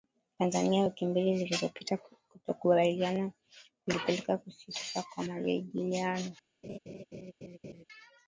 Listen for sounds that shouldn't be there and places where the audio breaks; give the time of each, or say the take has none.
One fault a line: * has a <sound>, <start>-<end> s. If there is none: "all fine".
* has a laugh, 6.6-7.8 s